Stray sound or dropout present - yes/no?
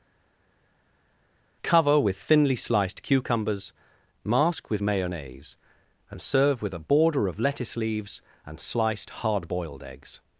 no